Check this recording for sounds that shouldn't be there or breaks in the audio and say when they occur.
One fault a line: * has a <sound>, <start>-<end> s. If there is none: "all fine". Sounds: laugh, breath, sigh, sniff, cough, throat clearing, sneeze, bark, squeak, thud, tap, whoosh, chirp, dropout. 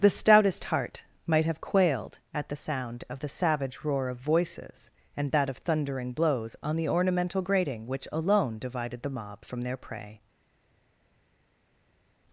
all fine